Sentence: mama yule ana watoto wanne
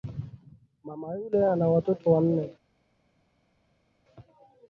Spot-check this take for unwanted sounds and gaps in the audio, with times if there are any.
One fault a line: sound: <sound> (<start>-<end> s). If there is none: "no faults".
no faults